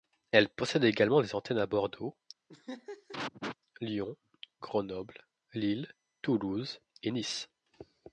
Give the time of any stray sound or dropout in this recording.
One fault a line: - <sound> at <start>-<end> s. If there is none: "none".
- laugh at 2.5-3.6 s